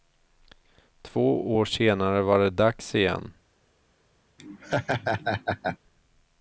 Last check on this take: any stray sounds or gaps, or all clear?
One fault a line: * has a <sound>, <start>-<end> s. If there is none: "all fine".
* has a laugh, 4.4-5.8 s